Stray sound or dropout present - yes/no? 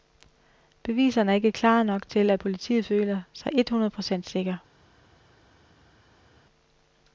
no